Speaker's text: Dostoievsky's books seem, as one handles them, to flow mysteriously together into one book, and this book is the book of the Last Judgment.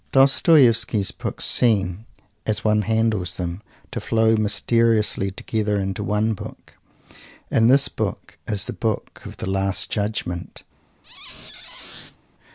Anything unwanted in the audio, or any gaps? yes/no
yes